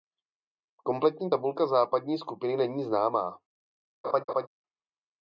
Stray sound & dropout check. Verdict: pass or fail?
fail